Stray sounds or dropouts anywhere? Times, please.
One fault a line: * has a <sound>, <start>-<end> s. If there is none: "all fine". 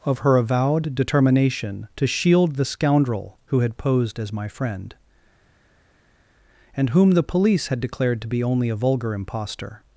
all fine